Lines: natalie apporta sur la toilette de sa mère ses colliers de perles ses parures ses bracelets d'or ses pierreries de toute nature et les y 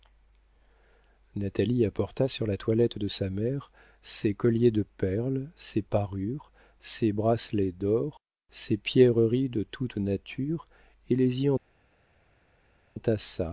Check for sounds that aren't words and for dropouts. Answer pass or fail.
pass